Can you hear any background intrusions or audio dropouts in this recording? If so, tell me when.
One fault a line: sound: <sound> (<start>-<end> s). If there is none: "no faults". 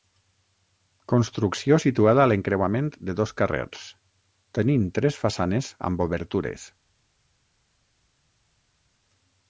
no faults